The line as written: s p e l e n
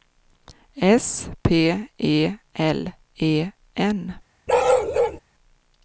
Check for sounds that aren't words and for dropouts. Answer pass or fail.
fail